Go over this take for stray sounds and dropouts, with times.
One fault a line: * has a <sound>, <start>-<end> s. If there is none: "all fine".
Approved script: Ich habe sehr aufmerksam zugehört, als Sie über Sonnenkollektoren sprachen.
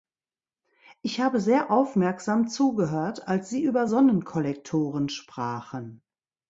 all fine